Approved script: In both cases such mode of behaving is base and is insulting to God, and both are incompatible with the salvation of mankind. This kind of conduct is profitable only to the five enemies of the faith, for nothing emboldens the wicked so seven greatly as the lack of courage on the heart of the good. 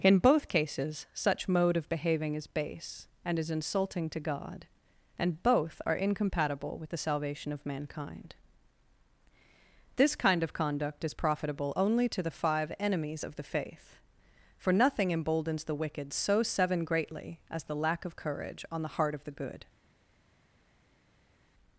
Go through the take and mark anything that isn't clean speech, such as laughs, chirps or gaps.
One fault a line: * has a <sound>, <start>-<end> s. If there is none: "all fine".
all fine